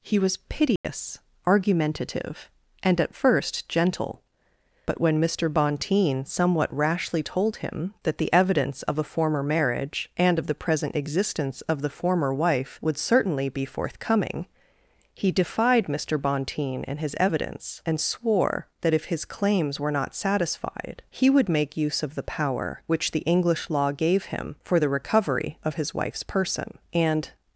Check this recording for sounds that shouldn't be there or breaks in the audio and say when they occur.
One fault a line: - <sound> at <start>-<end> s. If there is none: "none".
- dropout at 0.8-0.8 s